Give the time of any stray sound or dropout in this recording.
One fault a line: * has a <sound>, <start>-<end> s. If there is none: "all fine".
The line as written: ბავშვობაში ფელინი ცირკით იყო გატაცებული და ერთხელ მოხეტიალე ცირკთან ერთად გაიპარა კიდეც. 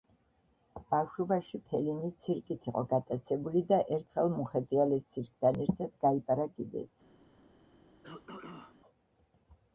* has a throat clearing, 8.0-8.8 s